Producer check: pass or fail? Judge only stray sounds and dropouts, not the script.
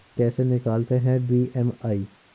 pass